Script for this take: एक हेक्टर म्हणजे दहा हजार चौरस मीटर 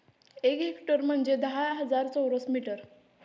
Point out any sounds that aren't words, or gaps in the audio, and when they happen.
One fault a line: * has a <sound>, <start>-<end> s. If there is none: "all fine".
all fine